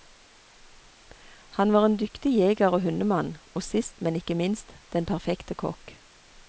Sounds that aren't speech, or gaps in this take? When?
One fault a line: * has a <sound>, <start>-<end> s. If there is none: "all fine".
all fine